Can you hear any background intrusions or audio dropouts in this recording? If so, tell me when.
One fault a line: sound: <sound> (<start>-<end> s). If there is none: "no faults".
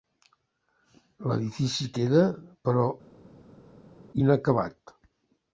no faults